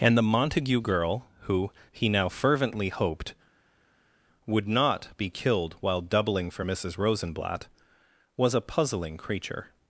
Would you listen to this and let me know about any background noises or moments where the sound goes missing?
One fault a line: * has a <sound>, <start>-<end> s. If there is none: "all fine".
all fine